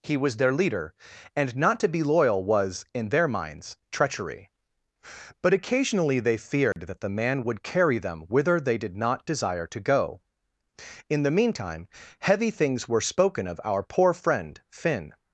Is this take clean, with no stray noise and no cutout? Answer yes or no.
no